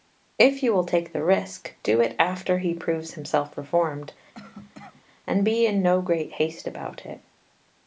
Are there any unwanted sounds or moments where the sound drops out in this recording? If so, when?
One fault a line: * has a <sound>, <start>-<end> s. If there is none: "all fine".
* has a cough, 4.3-5.0 s